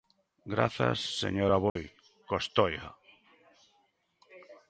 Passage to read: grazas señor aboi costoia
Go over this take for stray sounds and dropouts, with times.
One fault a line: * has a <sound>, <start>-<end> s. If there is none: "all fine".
* has a dropout, 1.7-1.8 s